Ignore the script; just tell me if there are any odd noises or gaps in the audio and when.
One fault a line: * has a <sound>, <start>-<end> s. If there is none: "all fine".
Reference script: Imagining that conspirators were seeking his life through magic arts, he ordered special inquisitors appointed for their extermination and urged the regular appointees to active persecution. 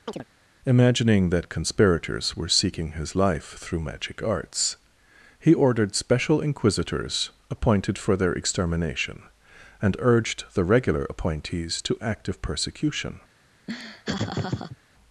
* has a chirp, 0.1-0.2 s
* has a laugh, 13.7-14.8 s